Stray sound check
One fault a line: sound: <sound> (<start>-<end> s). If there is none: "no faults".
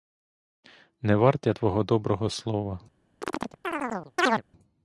sound: chirp (3.2-4.4 s)